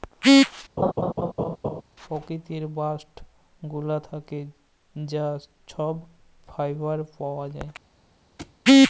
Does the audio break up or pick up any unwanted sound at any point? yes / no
yes